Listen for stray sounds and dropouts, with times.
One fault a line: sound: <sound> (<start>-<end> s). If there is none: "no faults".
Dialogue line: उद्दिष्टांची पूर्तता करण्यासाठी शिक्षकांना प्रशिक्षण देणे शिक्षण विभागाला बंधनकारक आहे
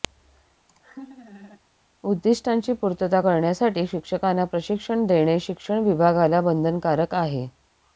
sound: laugh (0.7-1.6 s)